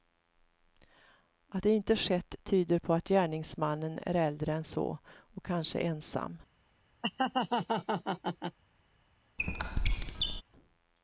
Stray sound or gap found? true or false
true